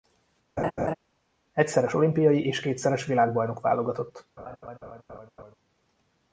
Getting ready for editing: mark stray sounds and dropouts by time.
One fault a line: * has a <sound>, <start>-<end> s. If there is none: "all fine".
* has a laugh, 0.6-0.9 s
* has a laugh, 4.4-5.6 s